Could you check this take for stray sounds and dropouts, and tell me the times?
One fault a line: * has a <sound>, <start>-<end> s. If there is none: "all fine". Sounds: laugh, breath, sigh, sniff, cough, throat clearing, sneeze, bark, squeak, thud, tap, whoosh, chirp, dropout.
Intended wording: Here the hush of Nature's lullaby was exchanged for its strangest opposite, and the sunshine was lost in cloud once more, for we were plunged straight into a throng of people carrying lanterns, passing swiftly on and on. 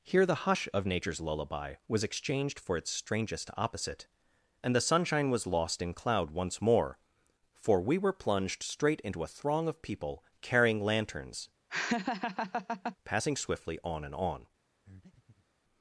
* has a laugh, 11.7-13.0 s
* has a breath, 14.8-15.5 s